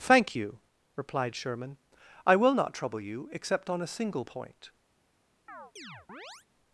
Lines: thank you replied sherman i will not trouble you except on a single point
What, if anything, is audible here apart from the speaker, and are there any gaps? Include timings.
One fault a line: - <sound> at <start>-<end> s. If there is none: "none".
- chirp at 5.5-6.5 s